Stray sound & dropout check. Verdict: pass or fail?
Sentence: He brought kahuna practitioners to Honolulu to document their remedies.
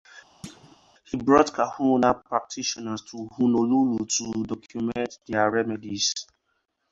fail